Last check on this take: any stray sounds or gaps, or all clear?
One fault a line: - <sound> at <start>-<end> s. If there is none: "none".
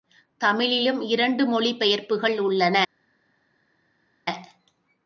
none